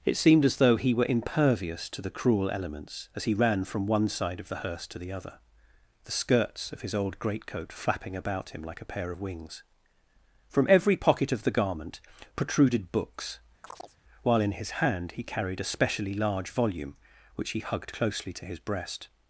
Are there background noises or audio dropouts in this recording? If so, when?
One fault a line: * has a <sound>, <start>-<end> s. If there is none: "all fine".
* has a chirp, 13.6-14.0 s